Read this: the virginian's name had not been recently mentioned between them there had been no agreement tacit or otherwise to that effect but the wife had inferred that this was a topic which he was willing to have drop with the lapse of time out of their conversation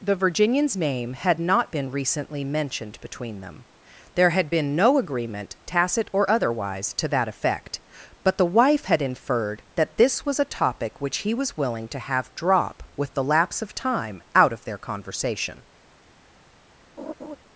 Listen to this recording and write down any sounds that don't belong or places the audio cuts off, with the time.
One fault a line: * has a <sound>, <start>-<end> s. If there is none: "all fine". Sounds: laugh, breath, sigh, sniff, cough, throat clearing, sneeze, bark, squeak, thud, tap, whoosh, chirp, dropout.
* has a laugh, 17.0-17.4 s